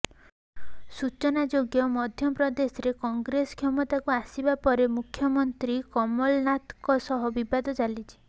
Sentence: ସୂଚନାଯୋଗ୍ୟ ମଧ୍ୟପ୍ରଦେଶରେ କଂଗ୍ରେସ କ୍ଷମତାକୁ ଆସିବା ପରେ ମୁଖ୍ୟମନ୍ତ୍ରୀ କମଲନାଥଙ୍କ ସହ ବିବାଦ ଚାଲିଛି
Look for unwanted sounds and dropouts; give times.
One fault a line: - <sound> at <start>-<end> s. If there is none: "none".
none